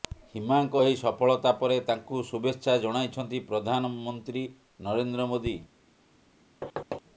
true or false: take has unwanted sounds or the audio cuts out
true